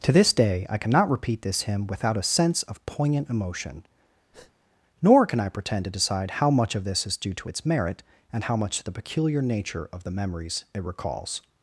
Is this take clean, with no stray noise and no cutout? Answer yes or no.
no